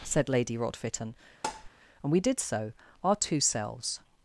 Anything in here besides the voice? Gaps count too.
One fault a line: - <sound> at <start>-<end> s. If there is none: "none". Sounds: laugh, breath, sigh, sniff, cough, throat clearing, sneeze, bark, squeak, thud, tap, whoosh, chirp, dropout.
- tap at 1.4-1.7 s